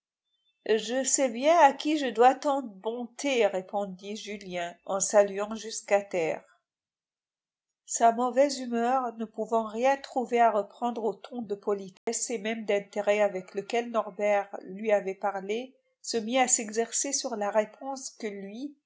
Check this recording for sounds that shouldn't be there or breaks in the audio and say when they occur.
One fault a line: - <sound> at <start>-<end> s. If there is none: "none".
- dropout at 12.0-12.1 s